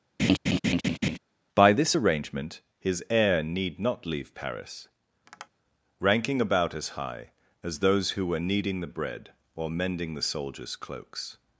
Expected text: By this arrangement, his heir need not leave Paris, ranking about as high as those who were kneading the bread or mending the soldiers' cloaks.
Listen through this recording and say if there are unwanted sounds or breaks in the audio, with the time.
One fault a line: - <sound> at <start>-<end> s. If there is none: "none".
- laugh at 0.2-1.2 s
- tap at 5.3-5.5 s